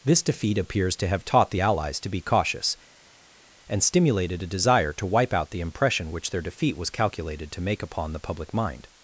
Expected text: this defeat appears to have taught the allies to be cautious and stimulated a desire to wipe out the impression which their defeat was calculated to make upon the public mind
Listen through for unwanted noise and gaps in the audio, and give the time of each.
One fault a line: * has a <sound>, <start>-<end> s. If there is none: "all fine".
all fine